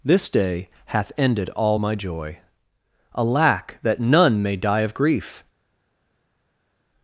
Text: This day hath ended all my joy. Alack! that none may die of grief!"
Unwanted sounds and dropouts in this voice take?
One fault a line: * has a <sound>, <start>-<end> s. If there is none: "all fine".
all fine